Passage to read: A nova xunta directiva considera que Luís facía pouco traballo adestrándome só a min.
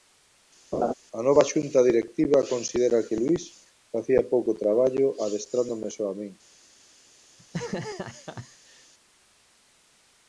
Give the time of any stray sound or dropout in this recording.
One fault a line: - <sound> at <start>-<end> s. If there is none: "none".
- laugh at 0.7-0.9 s
- laugh at 7.4-8.9 s